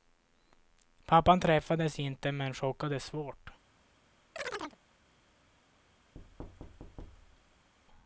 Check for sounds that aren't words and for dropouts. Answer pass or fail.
fail